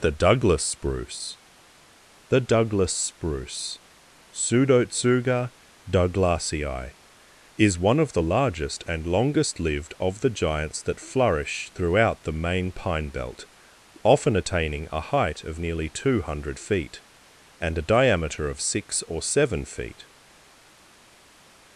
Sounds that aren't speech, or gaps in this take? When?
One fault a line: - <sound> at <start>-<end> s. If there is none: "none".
none